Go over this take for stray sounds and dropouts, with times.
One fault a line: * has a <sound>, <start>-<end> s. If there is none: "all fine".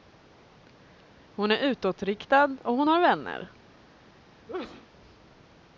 * has a sneeze, 4.5-4.9 s